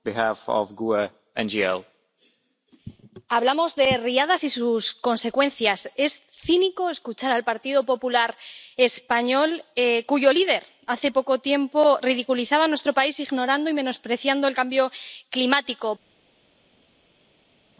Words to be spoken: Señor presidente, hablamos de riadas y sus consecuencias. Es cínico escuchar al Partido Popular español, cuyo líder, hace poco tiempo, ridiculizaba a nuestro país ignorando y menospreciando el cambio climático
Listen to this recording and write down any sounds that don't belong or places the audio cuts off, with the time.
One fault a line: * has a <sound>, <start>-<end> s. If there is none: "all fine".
all fine